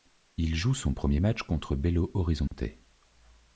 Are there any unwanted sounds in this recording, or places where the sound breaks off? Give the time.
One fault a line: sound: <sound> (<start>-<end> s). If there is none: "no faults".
sound: dropout (2.5-2.5 s)